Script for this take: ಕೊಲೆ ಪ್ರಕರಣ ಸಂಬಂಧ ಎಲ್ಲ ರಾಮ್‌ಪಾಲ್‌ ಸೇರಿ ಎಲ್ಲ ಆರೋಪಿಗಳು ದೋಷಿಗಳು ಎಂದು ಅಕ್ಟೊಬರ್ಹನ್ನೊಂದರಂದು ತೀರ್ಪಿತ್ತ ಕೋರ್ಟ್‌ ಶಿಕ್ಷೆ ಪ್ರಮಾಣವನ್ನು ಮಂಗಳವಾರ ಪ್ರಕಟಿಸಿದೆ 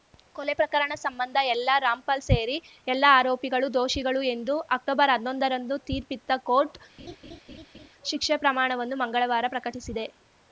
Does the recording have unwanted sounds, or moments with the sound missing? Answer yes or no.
yes